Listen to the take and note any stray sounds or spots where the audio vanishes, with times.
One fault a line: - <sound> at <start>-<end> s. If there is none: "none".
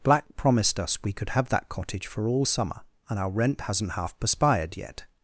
none